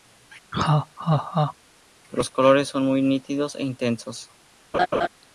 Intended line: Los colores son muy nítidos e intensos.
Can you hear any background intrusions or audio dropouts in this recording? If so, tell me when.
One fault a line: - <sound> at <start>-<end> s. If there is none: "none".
- laugh at 0.5-1.5 s
- laugh at 4.7-5.1 s